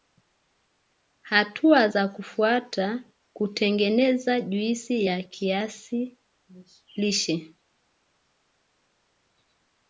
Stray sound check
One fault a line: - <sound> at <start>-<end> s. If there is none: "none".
none